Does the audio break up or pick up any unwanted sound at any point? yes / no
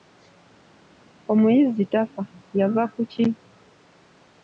no